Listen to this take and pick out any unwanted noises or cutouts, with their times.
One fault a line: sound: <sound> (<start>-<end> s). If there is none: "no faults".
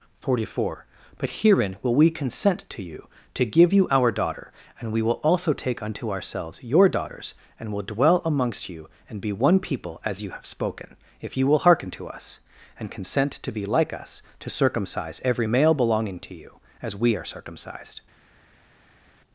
no faults